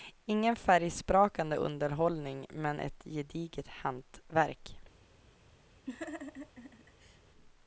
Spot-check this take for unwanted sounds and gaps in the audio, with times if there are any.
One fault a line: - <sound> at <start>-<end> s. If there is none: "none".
- laugh at 5.9-7.2 s